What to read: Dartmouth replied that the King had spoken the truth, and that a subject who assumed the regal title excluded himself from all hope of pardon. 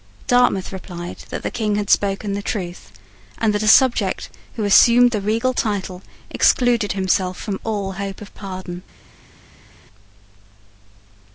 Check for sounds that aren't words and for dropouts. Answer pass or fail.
pass